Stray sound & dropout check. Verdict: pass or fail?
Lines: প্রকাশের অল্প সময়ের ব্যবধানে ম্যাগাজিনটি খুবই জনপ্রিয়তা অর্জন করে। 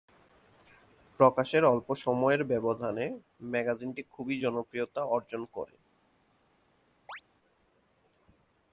fail